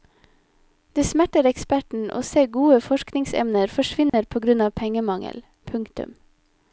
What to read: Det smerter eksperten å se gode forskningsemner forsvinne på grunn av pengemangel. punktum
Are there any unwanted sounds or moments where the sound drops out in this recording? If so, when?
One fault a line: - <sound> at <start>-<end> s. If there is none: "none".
- dropout at 4.1-4.1 s